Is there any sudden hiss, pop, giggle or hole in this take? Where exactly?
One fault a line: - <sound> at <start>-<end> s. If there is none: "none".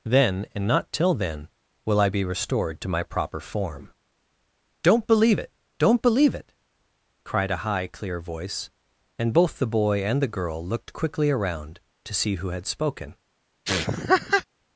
- laugh at 13.6-14.4 s